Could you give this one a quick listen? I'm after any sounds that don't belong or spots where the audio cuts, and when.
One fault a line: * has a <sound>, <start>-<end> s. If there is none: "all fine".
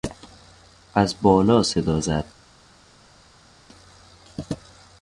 all fine